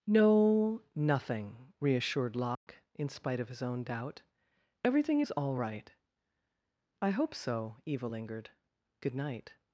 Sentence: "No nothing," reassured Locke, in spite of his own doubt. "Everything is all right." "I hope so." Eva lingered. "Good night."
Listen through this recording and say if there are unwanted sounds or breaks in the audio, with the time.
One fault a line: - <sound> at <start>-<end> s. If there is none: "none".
- dropout at 2.5-2.7 s